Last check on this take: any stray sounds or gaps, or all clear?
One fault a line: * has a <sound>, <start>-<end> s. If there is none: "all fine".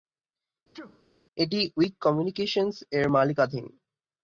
* has a sneeze, 0.7-1.0 s